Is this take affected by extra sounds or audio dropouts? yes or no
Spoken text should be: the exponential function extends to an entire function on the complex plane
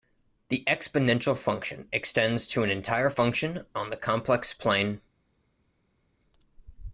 no